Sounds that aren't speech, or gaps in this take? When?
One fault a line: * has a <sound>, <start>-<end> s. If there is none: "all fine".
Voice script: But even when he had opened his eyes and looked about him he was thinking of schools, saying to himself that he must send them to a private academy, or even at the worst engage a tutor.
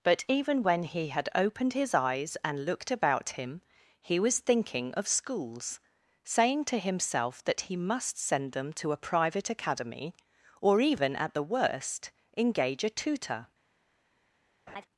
* has a laugh, 14.7-14.9 s